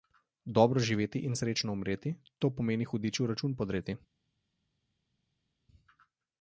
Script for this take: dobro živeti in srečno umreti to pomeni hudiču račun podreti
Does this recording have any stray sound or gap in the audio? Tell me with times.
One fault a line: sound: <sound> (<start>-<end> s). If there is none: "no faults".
no faults